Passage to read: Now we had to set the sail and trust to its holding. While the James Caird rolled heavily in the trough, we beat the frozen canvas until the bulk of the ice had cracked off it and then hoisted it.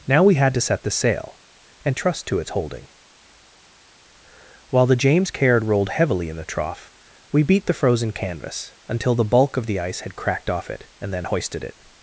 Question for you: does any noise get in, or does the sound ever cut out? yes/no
no